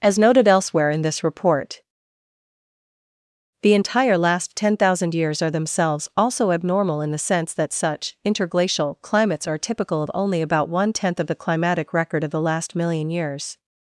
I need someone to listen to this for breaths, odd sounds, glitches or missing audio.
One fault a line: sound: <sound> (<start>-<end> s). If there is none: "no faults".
no faults